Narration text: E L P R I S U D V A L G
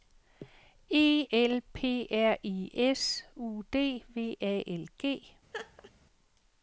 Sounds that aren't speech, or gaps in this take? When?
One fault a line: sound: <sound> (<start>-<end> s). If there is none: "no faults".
sound: laugh (5.5-5.9 s)